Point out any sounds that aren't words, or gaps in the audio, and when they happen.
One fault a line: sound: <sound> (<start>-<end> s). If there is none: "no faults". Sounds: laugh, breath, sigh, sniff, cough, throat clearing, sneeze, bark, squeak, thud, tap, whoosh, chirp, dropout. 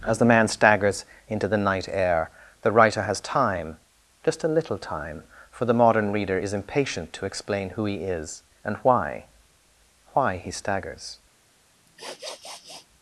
sound: sniff (11.9-12.9 s)